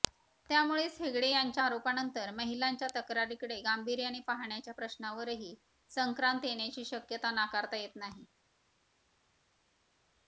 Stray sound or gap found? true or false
false